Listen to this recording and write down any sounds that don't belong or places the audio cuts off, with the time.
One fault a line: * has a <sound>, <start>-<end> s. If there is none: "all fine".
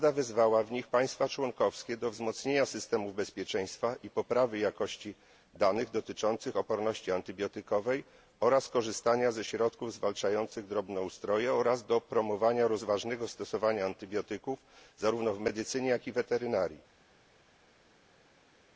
all fine